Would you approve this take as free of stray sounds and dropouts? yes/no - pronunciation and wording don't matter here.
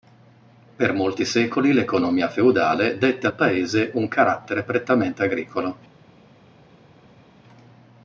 yes